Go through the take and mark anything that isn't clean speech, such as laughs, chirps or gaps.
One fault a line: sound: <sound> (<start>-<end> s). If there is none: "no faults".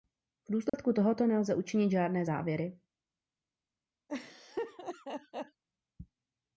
sound: dropout (0.7-0.7 s)
sound: laugh (4.1-5.6 s)